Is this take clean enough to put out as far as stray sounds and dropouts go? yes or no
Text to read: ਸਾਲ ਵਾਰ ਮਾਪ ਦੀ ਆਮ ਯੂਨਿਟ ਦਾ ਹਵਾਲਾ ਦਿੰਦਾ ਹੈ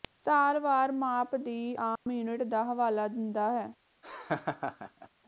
no